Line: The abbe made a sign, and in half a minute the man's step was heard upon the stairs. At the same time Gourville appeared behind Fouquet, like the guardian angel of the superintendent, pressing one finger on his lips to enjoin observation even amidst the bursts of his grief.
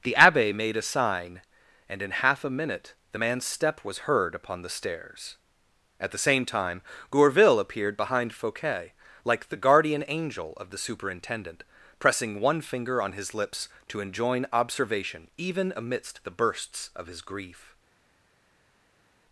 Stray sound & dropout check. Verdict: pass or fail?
pass